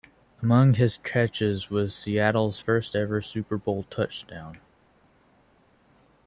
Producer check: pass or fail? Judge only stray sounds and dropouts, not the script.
pass